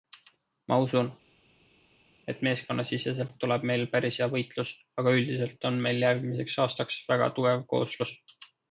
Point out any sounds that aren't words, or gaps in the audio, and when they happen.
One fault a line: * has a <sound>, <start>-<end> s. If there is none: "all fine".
all fine